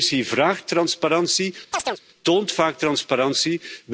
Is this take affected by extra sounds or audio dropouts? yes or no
yes